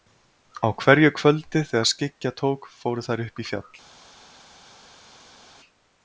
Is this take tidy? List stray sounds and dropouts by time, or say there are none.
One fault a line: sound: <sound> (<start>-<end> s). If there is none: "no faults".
no faults